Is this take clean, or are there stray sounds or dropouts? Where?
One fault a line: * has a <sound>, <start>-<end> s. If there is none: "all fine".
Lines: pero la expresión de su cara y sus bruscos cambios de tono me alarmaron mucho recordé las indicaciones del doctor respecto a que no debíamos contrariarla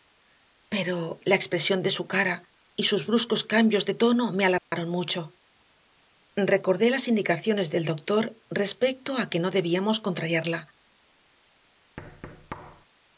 * has a dropout, 4.6-4.7 s
* has a thud, 12.0-12.9 s